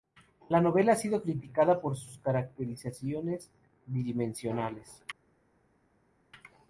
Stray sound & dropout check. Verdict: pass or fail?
pass